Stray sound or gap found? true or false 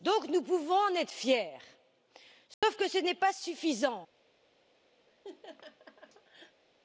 true